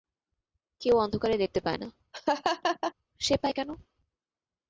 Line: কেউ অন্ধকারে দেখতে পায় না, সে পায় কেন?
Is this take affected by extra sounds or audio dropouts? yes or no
yes